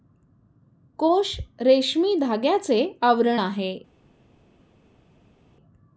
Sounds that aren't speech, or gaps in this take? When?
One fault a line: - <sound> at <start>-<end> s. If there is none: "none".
none